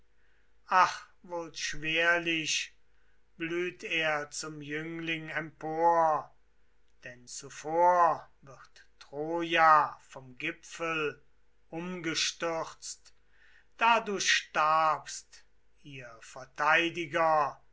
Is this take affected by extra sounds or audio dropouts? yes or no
no